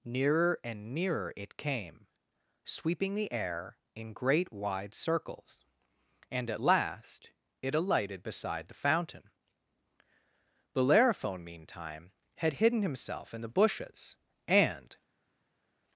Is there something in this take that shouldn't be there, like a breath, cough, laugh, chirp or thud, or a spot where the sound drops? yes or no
no